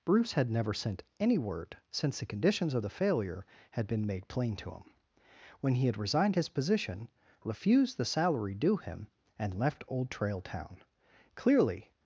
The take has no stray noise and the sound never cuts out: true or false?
true